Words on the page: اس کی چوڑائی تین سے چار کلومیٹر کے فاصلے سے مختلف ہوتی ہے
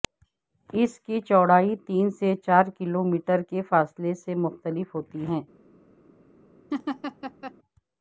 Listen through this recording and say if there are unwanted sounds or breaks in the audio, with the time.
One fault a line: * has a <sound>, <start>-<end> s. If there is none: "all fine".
* has a laugh, 6.7-7.5 s